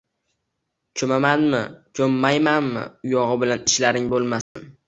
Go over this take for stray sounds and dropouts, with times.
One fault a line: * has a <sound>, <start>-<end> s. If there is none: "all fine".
* has a dropout, 4.4-4.6 s